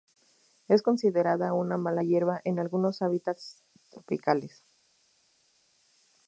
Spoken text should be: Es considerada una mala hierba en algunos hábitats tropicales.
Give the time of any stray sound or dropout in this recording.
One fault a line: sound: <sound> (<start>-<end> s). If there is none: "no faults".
no faults